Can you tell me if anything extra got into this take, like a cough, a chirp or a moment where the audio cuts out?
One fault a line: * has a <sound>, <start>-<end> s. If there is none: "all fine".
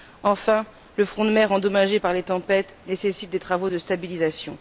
all fine